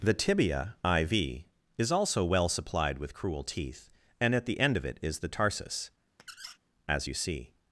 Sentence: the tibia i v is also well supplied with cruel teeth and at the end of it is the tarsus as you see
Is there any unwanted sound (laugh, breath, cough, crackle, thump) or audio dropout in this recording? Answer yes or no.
yes